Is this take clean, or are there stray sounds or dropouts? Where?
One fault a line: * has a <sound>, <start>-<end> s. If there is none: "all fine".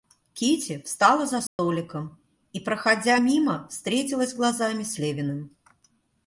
* has a dropout, 1.5-1.6 s